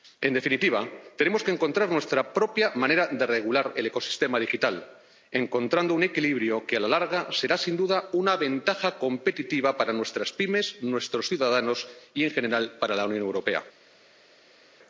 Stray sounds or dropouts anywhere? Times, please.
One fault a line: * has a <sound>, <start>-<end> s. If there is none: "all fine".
all fine